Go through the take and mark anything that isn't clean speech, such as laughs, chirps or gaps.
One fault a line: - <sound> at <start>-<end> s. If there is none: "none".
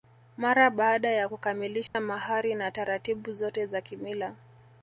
- dropout at 1.9-1.9 s